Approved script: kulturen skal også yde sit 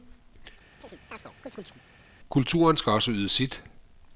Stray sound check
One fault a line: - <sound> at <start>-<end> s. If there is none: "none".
- chirp at 0.8-1.8 s